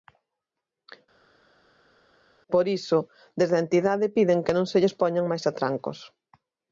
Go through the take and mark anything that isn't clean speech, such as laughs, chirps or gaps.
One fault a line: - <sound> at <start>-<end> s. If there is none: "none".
none